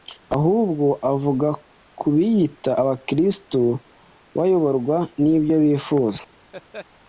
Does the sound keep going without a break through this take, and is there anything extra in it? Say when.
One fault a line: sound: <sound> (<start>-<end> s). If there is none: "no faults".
sound: laugh (6.5-6.9 s)